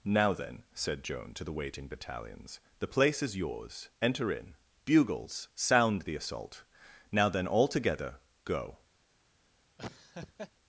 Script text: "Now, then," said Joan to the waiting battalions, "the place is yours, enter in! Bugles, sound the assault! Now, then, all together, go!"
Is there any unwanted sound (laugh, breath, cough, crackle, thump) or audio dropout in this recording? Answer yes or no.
yes